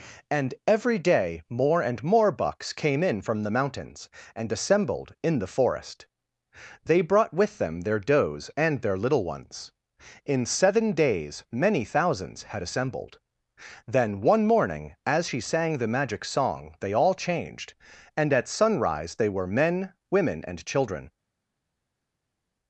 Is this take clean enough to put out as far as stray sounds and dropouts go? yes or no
yes